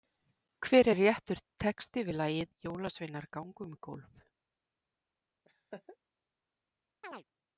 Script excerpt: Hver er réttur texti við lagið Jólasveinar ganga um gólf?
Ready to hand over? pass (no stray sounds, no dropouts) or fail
fail